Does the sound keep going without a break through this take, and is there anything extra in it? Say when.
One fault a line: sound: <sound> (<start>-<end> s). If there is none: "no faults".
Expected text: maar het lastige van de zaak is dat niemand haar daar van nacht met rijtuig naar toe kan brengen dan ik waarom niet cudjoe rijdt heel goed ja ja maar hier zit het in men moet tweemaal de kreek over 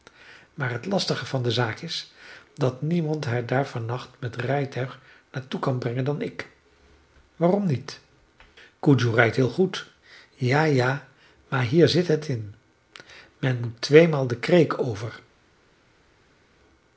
no faults